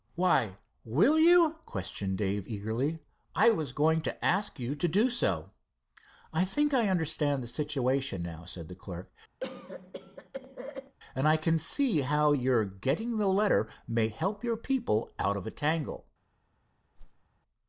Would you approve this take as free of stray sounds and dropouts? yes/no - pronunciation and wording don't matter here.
no